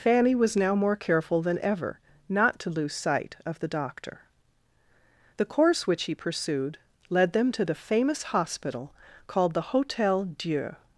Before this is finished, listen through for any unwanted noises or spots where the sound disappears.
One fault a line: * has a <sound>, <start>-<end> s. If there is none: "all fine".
all fine